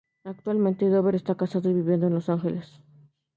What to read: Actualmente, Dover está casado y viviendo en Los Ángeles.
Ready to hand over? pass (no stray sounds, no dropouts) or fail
pass